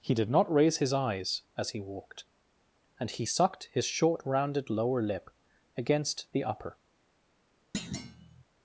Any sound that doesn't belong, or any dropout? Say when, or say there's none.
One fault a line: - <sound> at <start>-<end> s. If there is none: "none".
- thud at 7.7-8.4 s